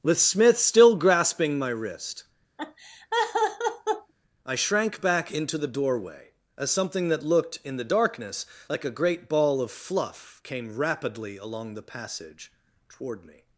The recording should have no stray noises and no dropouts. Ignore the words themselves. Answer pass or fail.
fail